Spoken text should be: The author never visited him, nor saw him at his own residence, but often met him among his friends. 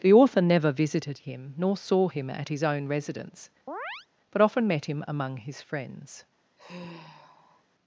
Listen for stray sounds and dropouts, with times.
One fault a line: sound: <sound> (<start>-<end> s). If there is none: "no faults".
sound: chirp (3.7-4.1 s)
sound: sigh (6.6-7.6 s)